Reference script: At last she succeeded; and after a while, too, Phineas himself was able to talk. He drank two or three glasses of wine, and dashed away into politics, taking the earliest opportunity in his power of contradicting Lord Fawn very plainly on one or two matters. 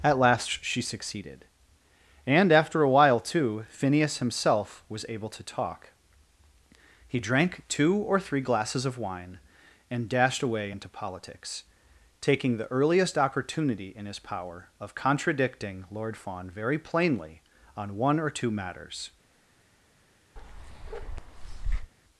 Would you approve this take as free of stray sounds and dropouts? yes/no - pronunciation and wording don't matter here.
no